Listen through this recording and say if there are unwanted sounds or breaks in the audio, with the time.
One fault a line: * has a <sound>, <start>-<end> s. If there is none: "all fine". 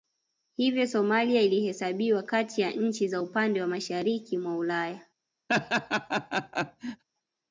* has a laugh, 5.5-7.0 s